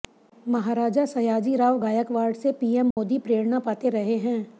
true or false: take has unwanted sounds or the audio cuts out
true